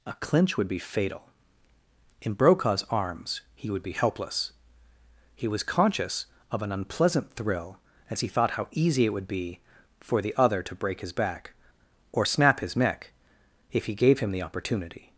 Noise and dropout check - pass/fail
pass